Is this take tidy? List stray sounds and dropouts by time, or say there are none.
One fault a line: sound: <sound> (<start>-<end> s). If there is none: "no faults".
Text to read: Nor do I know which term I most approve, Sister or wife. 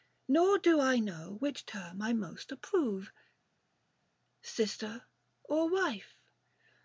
no faults